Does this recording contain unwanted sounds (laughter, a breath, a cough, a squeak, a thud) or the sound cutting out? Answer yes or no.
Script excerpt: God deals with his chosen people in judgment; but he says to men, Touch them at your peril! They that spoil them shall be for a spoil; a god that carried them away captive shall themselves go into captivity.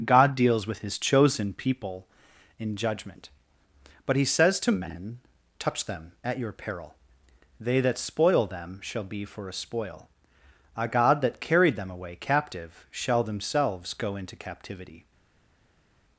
no